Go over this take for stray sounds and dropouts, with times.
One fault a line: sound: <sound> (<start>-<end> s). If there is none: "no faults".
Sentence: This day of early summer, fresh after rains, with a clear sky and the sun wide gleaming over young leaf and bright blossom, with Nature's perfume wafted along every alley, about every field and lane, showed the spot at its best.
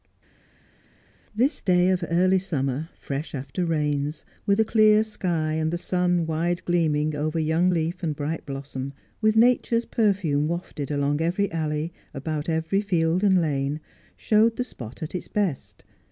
no faults